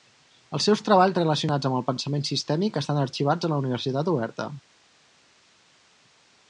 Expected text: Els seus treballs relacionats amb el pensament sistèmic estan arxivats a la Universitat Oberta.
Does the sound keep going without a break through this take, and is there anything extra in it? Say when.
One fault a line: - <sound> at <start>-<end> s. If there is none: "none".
none